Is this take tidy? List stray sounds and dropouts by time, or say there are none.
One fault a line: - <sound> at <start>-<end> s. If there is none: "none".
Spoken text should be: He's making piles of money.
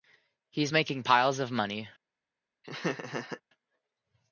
- laugh at 2.6-3.4 s